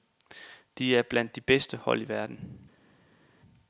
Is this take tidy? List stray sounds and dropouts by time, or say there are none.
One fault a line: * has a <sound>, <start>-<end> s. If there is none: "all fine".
all fine